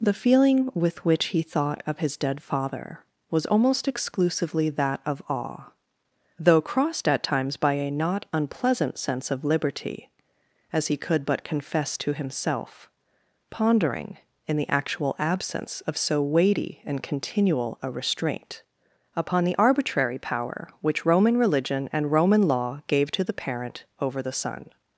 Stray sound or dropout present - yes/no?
no